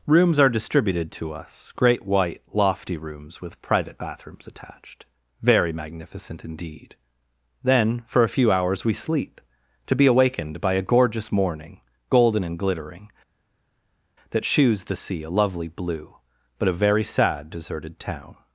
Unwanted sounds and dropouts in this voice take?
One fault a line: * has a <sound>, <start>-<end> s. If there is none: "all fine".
all fine